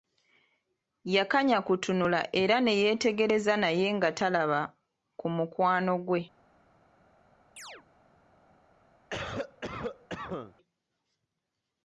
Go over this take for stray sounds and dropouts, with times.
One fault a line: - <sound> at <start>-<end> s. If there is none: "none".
- chirp at 7.6-7.9 s
- cough at 9.1-10.5 s